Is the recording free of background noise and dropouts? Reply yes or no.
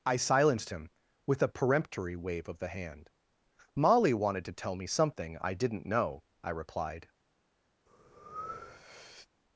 no